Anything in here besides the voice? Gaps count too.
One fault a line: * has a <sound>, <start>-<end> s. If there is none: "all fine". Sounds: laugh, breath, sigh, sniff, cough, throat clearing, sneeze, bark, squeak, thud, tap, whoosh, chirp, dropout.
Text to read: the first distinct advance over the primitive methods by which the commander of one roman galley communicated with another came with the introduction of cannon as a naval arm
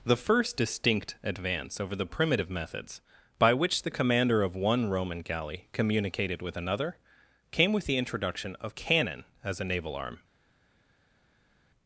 all fine